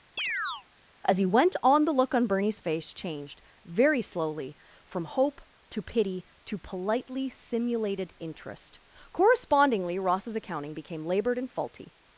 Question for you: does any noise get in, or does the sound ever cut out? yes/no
yes